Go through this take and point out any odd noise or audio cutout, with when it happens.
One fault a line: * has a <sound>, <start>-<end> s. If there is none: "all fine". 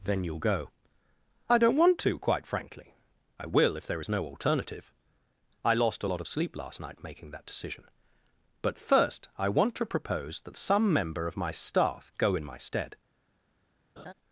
* has a laugh, 14.0-14.1 s